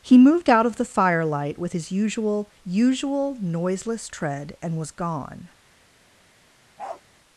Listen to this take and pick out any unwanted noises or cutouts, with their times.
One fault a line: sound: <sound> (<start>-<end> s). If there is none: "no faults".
sound: bark (6.8-7.0 s)